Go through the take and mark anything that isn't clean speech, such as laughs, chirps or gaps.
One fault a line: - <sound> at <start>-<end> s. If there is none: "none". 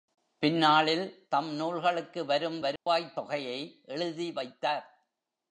- dropout at 2.8-2.9 s